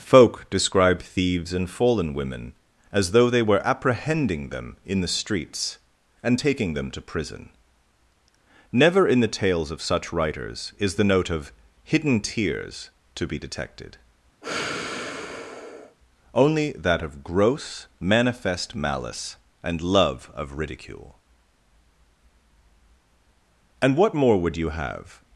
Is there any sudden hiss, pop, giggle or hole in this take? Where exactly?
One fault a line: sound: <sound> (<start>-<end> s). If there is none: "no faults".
sound: sigh (14.4-16.0 s)